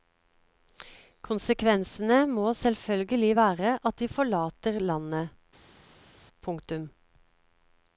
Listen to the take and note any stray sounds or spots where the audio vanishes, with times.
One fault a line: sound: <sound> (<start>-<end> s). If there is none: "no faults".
no faults